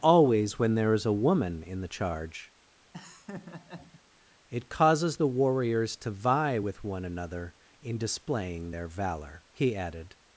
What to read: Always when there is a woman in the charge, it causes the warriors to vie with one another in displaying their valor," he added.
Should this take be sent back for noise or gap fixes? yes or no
yes